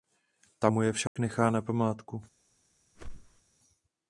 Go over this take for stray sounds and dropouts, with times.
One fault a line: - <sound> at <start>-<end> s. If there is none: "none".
- dropout at 1.1-1.2 s
- whoosh at 2.9-3.4 s